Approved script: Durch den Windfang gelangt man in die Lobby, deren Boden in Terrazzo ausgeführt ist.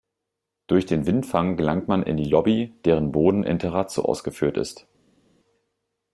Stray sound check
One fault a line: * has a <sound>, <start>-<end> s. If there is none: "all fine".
all fine